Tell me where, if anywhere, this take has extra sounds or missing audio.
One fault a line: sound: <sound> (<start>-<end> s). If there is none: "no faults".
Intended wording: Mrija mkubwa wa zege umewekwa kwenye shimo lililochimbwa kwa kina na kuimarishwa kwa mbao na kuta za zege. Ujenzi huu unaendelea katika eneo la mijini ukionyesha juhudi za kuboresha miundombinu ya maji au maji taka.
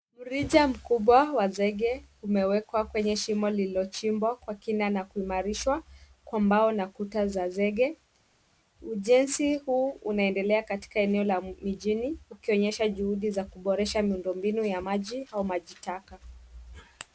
no faults